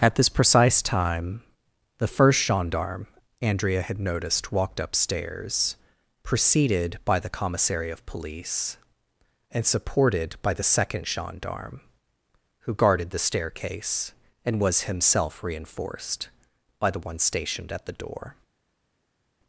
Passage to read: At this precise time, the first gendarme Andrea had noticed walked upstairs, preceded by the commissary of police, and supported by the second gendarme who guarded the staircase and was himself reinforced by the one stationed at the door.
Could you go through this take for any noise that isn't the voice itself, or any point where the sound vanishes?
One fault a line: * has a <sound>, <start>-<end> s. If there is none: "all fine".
all fine